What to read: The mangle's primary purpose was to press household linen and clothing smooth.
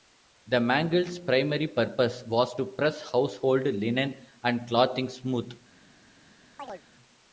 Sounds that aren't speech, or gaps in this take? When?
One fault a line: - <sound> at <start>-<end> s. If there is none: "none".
- chirp at 6.6-6.8 s